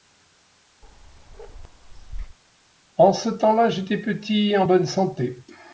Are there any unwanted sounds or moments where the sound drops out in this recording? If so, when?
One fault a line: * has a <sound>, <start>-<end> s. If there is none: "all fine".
* has a bark, 0.8-2.4 s